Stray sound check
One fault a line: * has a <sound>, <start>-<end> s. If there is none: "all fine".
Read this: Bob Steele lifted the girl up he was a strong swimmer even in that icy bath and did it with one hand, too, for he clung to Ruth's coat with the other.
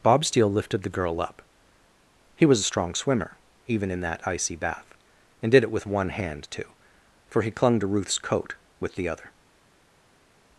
all fine